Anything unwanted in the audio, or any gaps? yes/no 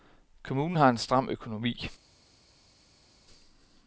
no